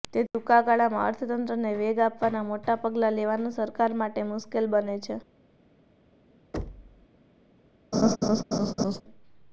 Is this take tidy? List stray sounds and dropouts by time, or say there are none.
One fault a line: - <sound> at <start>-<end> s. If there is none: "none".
- thud at 6.5-7.1 s
- laugh at 7.9-9.0 s